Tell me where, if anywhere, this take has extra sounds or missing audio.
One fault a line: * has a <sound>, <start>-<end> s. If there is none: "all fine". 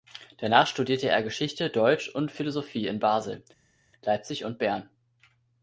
all fine